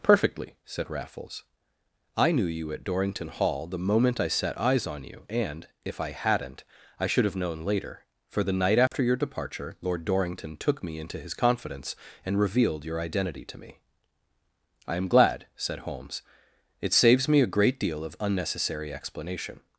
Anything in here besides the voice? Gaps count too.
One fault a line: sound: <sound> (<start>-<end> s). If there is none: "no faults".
sound: dropout (8.9-8.9 s)